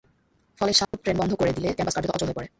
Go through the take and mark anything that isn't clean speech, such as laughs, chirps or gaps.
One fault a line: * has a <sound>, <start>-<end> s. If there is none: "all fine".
* has a dropout, 0.8-0.9 s